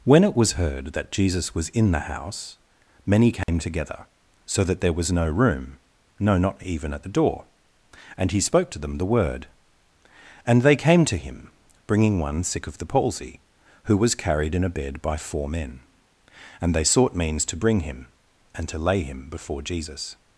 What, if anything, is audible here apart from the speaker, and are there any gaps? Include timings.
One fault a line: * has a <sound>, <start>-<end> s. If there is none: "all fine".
* has a dropout, 3.4-3.5 s